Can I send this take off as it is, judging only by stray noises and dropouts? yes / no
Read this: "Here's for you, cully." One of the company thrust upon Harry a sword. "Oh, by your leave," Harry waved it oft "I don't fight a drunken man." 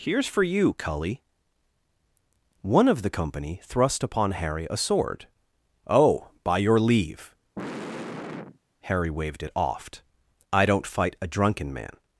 no